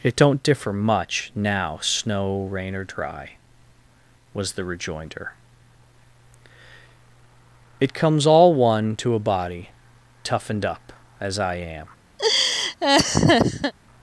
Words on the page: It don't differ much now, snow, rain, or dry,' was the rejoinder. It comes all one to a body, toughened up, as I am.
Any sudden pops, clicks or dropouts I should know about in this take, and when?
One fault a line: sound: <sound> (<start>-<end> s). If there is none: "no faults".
sound: laugh (12.2-13.7 s)